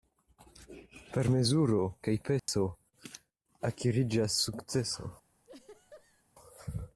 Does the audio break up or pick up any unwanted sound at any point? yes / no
yes